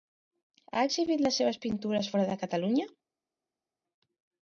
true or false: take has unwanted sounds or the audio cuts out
false